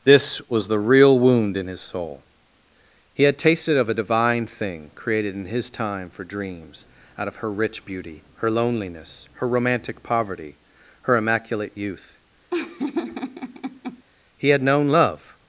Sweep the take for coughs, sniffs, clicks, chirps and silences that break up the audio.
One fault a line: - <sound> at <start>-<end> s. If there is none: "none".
- laugh at 12.5-14.0 s